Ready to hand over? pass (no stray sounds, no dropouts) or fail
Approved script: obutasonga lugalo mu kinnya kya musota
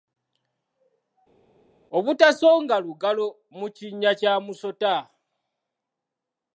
pass